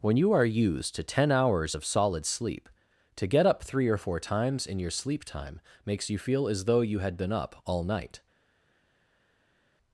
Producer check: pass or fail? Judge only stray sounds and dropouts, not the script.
pass